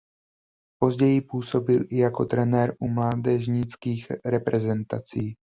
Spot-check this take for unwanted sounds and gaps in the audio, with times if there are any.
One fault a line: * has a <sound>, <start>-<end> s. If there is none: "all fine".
all fine